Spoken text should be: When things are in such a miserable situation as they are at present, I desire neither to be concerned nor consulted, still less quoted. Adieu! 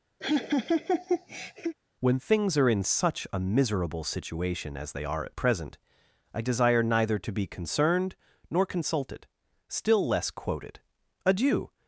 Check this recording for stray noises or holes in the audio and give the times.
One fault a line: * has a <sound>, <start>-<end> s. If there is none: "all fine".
* has a laugh, 0.2-1.8 s